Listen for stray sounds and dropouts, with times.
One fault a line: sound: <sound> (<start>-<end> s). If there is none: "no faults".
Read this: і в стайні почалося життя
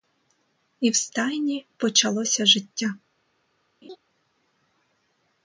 sound: laugh (3.8-4.0 s)